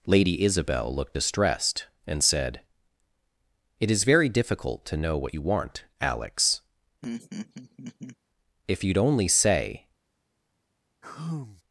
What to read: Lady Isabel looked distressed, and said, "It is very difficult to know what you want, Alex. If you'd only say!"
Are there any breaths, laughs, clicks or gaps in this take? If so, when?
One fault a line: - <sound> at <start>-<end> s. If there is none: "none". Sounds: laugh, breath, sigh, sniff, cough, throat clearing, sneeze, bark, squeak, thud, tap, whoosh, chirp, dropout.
- laugh at 7.0-8.2 s
- sigh at 11.0-11.6 s